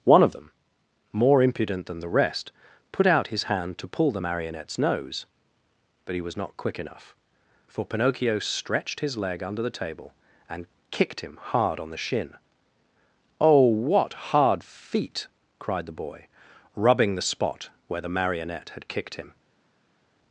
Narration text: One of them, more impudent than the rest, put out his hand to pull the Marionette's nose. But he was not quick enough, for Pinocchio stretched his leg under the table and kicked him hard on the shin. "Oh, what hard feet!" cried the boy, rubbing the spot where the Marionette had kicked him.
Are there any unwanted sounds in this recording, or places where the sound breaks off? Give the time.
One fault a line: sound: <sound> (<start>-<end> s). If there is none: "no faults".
no faults